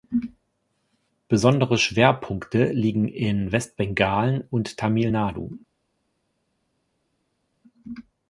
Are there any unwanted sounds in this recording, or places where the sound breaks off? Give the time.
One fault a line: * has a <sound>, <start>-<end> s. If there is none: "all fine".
all fine